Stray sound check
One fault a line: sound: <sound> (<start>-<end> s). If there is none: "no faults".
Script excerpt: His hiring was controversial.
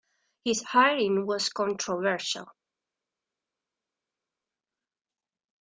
no faults